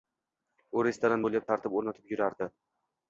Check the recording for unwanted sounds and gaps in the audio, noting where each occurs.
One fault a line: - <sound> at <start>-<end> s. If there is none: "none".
none